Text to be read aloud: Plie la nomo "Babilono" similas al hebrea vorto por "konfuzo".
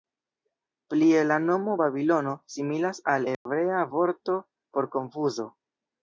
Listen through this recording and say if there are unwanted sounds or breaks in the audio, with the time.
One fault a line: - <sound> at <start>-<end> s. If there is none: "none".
- dropout at 3.3-3.5 s